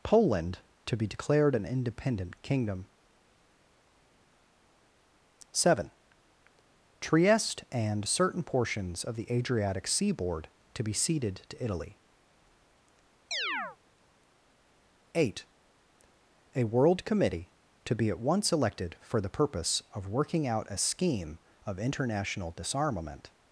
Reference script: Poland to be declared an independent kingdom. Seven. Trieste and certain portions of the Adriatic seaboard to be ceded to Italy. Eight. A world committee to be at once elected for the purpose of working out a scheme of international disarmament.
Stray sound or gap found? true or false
true